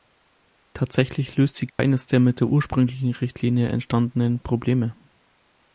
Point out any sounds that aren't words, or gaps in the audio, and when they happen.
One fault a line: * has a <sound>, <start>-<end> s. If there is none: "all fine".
* has a dropout, 1.7-1.8 s